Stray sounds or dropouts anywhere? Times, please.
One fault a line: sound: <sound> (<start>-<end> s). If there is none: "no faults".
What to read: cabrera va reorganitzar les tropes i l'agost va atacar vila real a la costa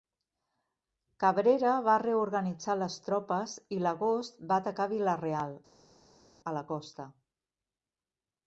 no faults